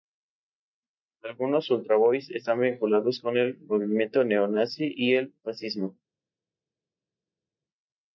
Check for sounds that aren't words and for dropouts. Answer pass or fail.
pass